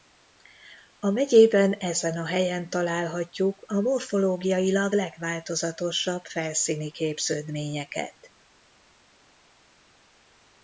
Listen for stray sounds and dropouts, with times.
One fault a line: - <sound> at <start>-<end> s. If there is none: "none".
none